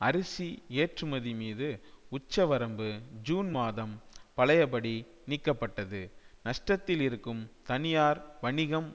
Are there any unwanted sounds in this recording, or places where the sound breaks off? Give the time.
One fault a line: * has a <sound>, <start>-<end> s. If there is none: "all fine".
all fine